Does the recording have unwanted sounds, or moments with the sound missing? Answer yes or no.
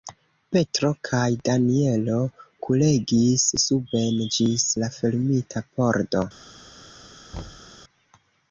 yes